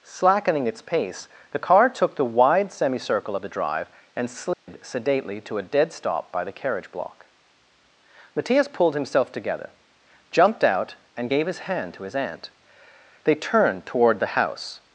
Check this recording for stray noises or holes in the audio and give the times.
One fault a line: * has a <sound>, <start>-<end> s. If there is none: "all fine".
* has a dropout, 4.5-4.7 s